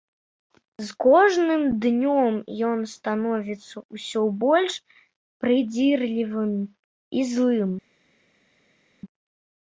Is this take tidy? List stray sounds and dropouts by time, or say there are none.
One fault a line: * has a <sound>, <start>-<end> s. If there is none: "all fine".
all fine